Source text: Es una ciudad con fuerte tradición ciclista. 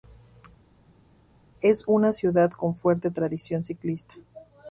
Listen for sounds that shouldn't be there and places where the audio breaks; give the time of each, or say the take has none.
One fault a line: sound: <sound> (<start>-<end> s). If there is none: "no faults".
no faults